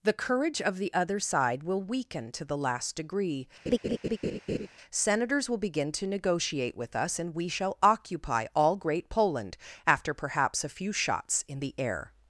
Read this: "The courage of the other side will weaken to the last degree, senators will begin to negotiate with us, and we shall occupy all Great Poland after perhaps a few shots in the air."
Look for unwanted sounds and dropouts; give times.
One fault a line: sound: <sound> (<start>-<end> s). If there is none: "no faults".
sound: laugh (3.7-4.7 s)